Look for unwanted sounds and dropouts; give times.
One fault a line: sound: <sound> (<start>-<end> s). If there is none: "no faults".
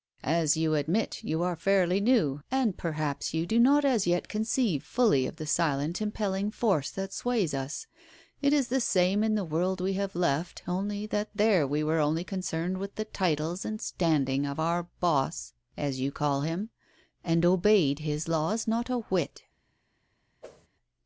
sound: whoosh (20.4-20.7 s)